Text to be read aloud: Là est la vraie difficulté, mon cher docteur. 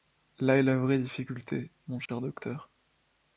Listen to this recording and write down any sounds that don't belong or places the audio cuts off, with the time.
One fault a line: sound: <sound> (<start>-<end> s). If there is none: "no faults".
sound: dropout (2.1-2.1 s)